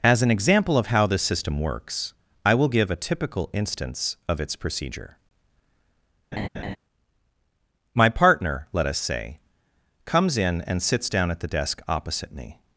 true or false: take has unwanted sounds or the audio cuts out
true